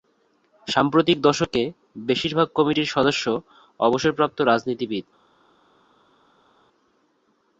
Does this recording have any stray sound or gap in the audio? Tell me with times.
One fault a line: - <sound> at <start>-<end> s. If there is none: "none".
none